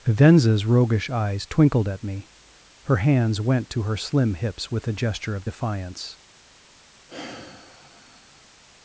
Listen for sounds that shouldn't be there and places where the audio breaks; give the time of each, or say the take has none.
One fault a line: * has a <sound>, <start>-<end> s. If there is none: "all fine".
* has a sigh, 7.1-8.5 s